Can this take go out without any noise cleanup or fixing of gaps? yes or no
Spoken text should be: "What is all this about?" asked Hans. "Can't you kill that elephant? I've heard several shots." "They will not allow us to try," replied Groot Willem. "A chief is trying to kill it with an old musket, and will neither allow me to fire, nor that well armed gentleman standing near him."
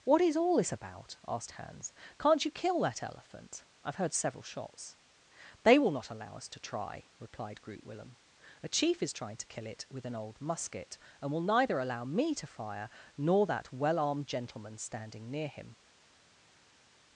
yes